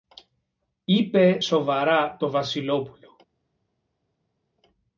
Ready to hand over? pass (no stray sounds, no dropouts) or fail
pass